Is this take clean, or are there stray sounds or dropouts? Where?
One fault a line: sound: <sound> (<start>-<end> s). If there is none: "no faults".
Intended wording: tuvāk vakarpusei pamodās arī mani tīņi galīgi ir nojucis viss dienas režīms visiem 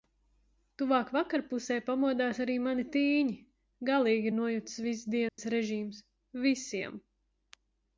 sound: dropout (5.3-5.4 s)